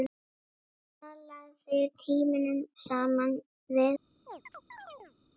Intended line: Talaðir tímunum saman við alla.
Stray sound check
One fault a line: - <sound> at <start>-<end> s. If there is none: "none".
- chirp at 4.3-5.2 s